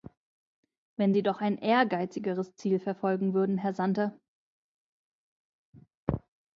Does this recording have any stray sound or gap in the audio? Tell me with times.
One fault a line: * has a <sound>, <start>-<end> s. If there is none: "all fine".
all fine